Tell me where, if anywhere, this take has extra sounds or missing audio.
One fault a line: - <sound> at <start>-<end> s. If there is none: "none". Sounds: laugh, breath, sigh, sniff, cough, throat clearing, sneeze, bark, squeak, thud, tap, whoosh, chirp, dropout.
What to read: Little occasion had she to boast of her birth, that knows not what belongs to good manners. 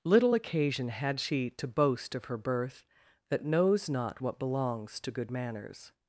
none